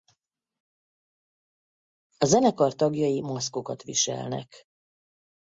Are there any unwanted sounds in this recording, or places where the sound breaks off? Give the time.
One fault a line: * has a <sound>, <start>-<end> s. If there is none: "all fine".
all fine